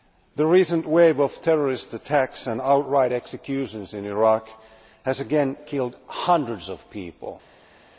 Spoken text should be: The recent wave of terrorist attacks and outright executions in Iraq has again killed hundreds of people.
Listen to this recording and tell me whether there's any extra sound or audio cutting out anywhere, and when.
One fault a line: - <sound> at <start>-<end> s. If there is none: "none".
none